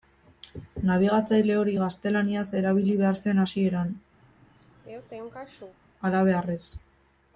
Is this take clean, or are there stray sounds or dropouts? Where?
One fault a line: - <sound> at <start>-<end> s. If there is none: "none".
- sneeze at 4.2-5.8 s